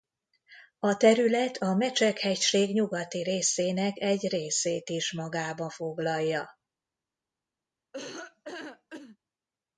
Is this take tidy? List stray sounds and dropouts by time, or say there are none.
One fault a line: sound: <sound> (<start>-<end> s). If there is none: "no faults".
sound: laugh (7.9-9.2 s)